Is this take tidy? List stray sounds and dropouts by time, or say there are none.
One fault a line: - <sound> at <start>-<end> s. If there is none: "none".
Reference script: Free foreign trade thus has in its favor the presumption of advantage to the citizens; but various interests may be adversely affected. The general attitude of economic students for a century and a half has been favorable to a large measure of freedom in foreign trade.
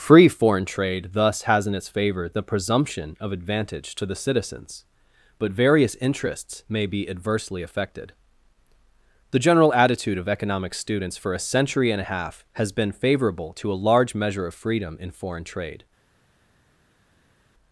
none